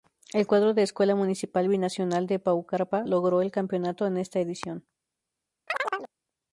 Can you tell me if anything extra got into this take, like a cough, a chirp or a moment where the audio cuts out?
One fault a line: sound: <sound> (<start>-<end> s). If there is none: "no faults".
sound: chirp (5.7-6.1 s)